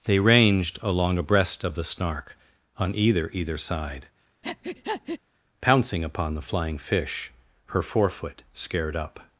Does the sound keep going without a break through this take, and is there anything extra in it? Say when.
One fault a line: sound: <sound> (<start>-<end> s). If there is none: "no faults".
sound: breath (4.4-5.2 s)